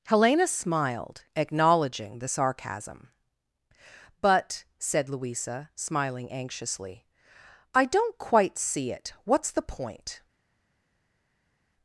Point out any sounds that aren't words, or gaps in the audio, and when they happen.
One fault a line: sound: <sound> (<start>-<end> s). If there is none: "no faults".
no faults